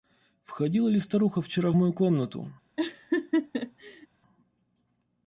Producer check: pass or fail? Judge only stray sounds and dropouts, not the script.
fail